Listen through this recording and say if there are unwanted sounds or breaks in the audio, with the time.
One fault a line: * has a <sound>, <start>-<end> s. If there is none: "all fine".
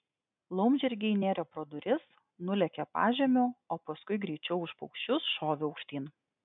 all fine